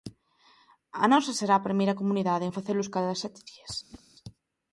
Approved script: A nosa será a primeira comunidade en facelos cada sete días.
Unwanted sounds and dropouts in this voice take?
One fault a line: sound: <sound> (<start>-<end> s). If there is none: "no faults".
sound: whoosh (3.9-4.0 s)